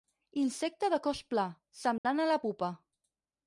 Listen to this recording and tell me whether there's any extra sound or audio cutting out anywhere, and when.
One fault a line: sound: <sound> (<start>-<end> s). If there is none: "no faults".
sound: dropout (2.0-2.0 s)